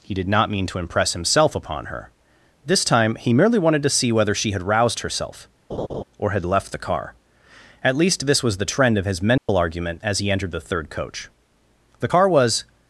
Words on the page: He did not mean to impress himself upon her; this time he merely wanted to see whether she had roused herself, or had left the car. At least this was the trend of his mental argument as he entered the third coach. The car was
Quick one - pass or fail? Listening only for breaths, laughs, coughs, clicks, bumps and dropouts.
fail